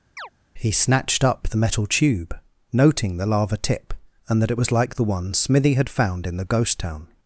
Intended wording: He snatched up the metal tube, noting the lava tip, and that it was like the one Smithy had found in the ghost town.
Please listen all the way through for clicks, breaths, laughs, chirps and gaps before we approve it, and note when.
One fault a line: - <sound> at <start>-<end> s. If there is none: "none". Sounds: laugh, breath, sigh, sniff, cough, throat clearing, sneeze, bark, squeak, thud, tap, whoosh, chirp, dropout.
- chirp at 0.2-0.3 s